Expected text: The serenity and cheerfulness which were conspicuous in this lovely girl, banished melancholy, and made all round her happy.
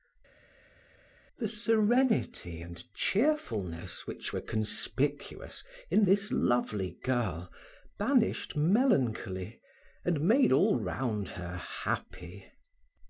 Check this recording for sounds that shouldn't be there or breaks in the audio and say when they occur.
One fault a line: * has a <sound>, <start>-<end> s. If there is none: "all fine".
all fine